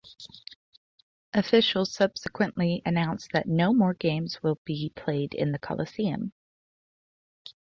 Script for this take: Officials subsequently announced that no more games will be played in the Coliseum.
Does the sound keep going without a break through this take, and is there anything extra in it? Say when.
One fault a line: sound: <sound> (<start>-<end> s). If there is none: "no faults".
no faults